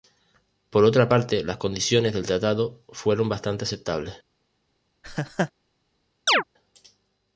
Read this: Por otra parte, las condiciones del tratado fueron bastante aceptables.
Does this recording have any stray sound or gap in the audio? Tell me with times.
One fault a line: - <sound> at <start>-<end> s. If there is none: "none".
- laugh at 5.0-5.5 s
- chirp at 6.3-6.4 s